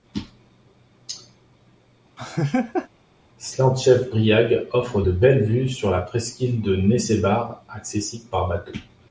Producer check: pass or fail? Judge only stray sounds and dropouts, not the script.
fail